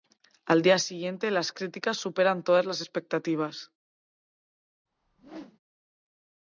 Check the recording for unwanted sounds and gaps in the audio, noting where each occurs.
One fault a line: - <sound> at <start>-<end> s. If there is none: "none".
- whoosh at 4.9-5.6 s